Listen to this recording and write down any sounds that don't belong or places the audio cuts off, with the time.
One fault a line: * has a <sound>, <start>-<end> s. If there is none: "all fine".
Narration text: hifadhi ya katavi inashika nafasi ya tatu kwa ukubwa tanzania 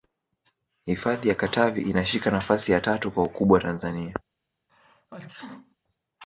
* has a sneeze, 4.7-5.8 s